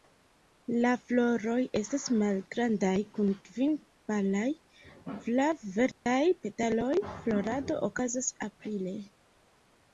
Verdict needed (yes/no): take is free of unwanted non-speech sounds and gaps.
no